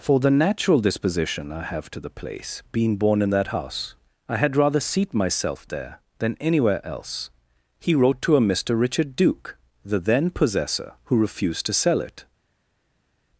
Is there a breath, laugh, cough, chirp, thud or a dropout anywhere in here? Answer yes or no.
no